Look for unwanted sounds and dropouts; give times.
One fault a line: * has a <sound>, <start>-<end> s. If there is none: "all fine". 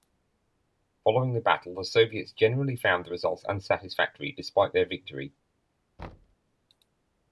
* has a thud, 6.0-6.4 s